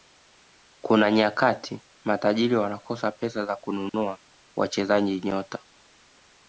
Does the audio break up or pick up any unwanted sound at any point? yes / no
yes